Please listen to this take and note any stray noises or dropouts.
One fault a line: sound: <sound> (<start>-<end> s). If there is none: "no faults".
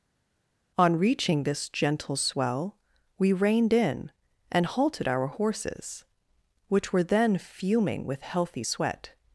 no faults